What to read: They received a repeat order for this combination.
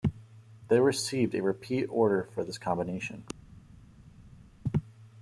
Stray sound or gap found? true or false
false